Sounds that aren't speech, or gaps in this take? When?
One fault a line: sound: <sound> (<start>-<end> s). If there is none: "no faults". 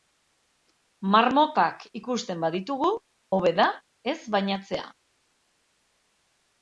no faults